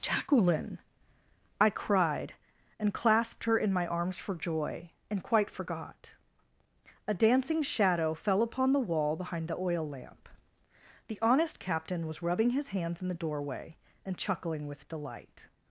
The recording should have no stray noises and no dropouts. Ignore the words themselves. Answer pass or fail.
pass